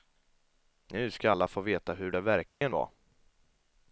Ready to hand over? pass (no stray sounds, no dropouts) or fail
fail